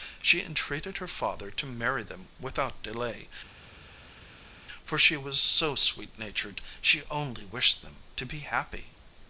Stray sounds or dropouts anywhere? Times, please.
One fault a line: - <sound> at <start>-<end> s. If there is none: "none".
none